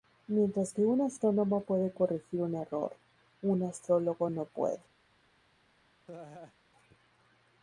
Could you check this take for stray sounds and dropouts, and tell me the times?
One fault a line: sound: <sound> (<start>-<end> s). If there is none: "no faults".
sound: laugh (6.1-6.6 s)